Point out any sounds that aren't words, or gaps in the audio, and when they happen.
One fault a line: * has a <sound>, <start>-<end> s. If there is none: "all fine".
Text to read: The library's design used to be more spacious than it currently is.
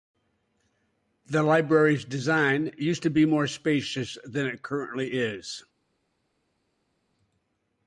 all fine